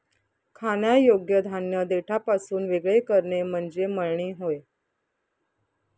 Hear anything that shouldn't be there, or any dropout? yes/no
no